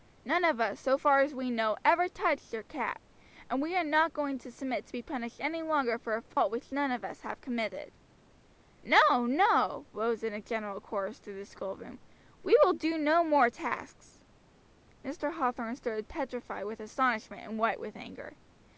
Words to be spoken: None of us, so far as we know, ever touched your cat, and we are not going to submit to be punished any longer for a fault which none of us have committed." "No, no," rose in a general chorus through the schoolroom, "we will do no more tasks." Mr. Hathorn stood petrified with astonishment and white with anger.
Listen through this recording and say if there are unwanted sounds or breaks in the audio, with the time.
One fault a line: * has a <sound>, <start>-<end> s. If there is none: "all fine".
* has a dropout, 6.3-6.4 s